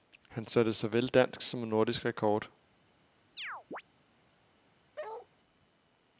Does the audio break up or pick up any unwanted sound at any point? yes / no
yes